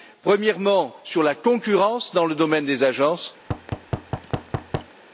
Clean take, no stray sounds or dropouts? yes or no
no